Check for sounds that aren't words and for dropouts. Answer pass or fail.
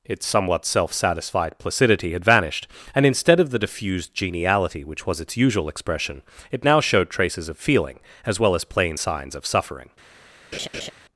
fail